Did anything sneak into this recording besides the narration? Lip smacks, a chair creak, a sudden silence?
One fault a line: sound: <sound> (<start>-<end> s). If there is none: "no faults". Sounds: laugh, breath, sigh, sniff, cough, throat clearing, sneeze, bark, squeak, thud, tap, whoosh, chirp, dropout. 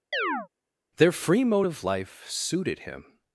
sound: chirp (0.1-0.5 s)